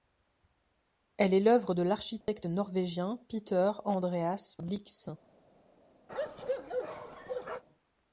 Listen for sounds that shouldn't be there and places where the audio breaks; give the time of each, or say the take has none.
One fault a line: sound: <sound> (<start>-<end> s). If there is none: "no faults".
sound: dropout (2.2-2.3 s)
sound: bark (6.1-7.6 s)